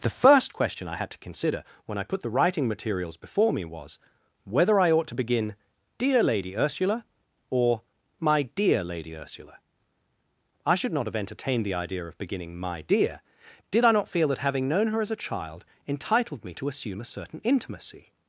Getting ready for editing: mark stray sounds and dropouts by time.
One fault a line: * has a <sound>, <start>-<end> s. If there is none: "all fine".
all fine